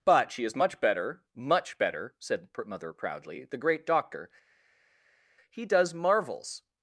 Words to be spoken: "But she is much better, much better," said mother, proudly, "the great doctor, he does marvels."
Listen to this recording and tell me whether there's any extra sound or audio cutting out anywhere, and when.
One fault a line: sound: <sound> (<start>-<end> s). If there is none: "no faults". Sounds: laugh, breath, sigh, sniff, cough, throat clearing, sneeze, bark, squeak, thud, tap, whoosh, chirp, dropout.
no faults